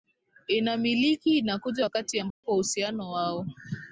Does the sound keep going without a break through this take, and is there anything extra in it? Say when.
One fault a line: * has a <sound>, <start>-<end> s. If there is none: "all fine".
* has a dropout, 2.3-2.4 s